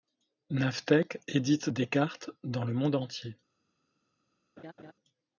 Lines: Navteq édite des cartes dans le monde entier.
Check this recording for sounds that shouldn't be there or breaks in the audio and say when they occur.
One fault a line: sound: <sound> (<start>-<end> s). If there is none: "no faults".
sound: laugh (4.6-4.9 s)